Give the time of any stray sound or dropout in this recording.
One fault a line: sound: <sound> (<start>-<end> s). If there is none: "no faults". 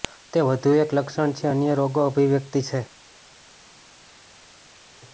no faults